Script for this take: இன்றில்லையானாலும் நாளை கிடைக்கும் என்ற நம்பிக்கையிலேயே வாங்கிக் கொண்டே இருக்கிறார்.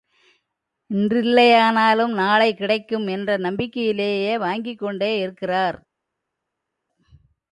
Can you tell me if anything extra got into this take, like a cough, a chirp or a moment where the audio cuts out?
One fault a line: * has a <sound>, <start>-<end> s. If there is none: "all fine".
all fine